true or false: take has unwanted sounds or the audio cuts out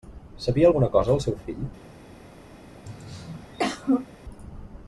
true